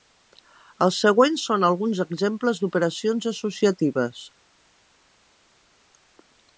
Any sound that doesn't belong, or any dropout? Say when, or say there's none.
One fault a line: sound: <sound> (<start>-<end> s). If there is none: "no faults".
no faults